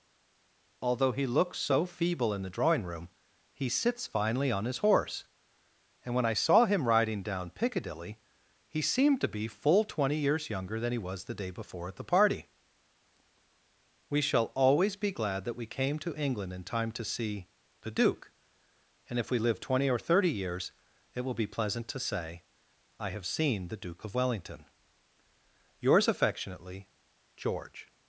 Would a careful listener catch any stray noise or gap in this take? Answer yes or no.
no